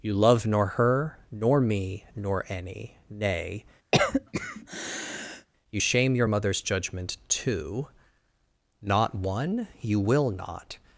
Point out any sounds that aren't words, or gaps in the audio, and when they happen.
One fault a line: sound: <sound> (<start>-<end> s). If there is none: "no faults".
sound: cough (3.9-5.5 s)